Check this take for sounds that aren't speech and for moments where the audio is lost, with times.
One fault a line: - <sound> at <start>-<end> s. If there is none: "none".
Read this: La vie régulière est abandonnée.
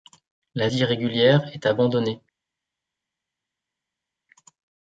none